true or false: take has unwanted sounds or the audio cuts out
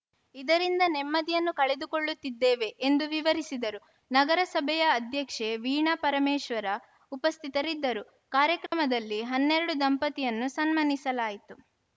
true